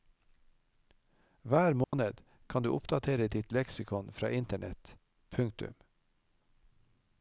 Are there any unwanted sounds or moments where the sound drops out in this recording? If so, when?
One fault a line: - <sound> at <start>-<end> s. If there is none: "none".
- dropout at 1.8-1.9 s